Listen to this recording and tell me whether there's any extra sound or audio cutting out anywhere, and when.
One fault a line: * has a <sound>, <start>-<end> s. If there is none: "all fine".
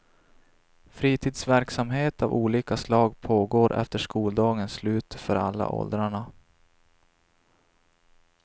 all fine